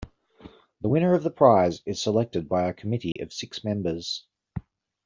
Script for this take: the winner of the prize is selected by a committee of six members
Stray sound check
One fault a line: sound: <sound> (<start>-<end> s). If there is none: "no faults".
sound: dropout (3.1-3.2 s)